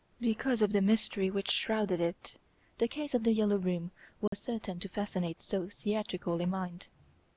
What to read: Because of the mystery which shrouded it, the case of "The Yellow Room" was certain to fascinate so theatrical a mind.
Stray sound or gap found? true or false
true